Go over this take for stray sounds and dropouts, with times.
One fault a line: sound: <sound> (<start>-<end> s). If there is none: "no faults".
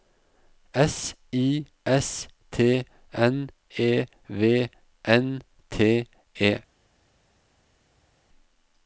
no faults